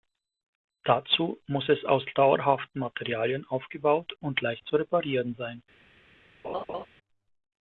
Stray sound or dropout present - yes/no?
yes